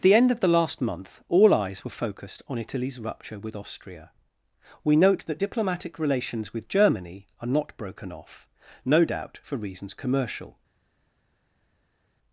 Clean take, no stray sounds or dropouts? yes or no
yes